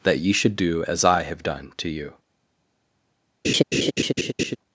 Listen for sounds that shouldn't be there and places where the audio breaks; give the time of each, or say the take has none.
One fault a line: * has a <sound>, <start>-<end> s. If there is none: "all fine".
* has a laugh, 3.4-4.6 s